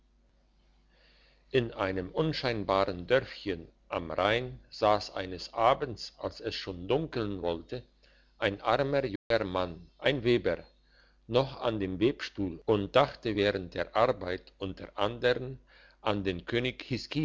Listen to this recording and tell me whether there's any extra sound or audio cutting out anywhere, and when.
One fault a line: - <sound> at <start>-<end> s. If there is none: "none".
- dropout at 9.2-9.3 s